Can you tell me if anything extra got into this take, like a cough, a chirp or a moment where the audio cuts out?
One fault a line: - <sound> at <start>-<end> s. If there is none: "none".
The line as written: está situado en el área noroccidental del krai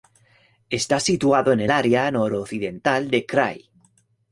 none